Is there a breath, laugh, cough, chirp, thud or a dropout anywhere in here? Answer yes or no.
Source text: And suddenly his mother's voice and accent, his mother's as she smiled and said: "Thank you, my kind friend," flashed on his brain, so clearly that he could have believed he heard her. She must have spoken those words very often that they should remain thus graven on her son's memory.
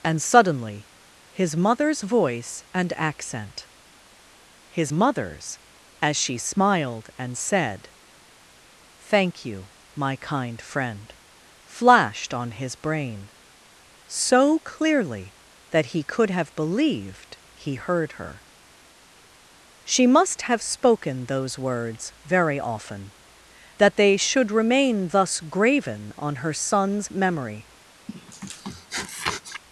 yes